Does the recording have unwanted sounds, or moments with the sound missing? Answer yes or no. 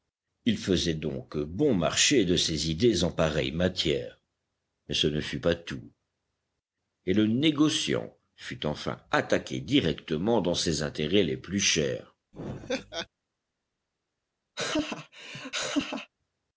yes